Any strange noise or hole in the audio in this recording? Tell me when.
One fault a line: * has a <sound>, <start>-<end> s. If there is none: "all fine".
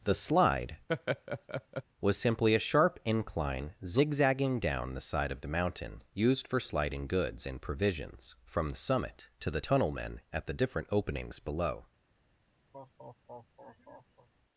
* has a laugh, 0.9-1.8 s
* has a laugh, 12.7-14.3 s